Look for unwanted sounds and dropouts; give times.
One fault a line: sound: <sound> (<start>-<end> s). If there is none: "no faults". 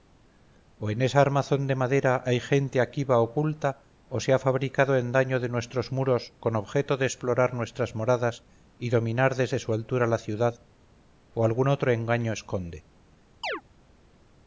sound: chirp (13.4-13.6 s)